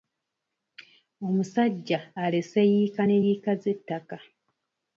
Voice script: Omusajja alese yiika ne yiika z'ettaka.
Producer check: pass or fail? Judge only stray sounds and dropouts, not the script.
pass